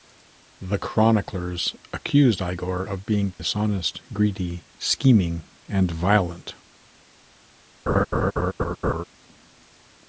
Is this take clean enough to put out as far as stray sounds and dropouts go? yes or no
no